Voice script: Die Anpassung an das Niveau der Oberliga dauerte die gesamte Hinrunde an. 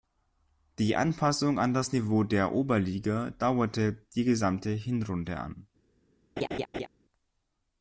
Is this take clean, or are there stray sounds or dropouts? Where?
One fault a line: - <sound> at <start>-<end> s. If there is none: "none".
- laugh at 6.4-6.9 s